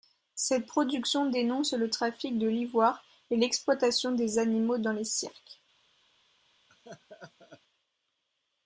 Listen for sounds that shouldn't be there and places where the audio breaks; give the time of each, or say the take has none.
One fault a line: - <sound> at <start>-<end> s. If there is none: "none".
- laugh at 6.7-7.6 s